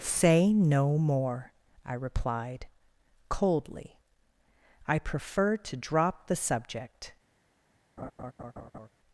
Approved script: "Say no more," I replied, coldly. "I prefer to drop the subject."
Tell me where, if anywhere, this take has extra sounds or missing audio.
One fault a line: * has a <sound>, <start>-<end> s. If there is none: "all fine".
* has a laugh, 8.0-8.9 s